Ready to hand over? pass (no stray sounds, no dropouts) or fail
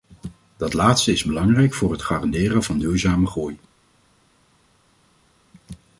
pass